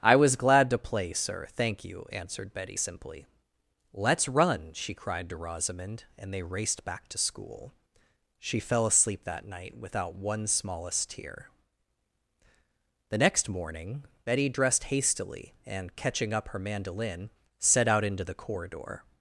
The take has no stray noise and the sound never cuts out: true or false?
true